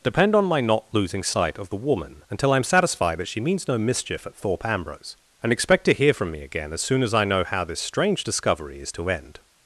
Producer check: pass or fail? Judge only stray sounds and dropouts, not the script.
pass